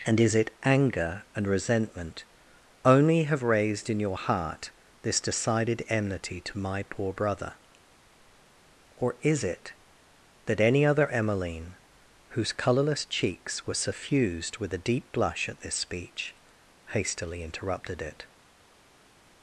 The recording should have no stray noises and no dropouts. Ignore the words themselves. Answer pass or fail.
pass